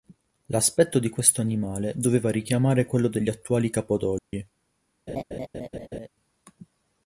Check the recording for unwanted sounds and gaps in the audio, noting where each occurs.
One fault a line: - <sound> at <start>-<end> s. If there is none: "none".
- dropout at 4.2-4.3 s
- laugh at 5.1-6.1 s